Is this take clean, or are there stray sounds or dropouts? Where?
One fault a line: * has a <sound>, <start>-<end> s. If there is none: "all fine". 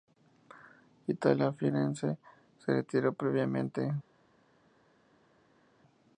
all fine